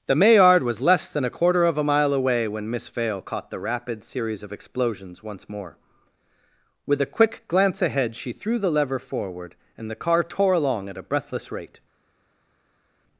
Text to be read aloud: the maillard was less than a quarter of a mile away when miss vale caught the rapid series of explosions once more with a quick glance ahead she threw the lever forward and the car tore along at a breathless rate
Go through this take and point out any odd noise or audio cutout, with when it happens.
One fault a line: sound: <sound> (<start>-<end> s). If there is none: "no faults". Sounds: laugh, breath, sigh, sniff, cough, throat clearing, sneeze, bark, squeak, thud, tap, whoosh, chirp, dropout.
no faults